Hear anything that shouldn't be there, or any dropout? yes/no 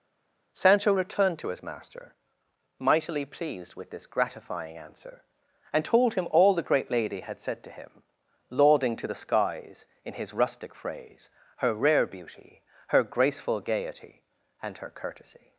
no